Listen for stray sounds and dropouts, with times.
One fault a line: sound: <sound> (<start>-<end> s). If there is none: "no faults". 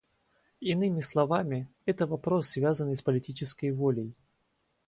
no faults